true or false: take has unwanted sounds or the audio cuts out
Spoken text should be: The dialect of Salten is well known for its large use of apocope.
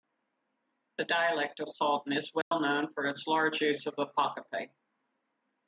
true